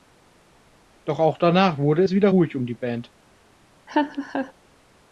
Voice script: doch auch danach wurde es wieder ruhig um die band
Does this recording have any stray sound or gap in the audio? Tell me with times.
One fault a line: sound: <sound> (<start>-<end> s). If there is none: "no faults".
sound: laugh (3.9-4.5 s)